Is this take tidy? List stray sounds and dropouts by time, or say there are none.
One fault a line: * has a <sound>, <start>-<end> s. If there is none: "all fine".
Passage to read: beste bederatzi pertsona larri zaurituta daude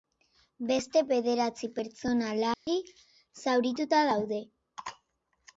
* has a dropout, 2.5-2.7 s